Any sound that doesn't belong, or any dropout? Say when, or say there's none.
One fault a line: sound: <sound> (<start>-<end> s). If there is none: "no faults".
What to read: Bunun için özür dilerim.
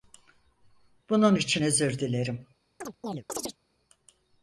sound: chirp (2.8-3.6 s)